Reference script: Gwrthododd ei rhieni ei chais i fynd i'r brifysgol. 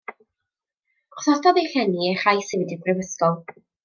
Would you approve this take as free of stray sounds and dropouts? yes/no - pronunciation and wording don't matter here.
yes